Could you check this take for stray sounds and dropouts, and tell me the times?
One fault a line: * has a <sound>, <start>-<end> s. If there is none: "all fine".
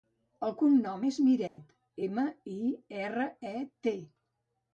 * has a dropout, 1.5-1.6 s